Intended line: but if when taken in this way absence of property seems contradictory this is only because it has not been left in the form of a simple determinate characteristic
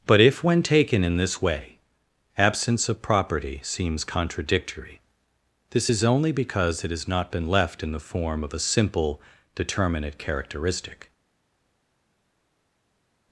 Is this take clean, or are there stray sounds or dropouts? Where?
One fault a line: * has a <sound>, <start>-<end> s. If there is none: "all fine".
all fine